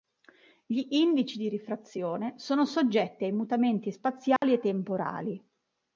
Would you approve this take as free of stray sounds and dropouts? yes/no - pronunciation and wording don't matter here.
no